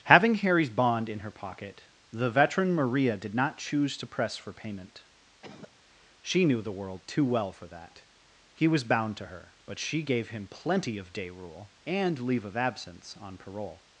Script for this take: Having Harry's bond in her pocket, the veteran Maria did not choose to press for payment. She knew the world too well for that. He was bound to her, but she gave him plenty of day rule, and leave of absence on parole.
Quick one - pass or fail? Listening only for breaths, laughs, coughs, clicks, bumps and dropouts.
fail